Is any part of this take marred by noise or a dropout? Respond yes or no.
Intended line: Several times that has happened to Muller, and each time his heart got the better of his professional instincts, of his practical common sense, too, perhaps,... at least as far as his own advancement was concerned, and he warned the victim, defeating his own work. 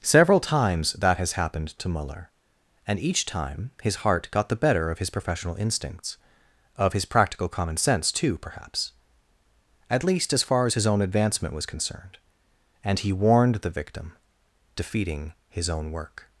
no